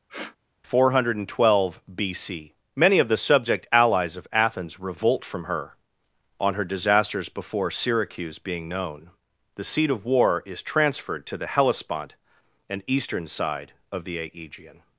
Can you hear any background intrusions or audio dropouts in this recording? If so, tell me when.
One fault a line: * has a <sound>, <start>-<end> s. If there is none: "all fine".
* has a sniff, 0.1-0.4 s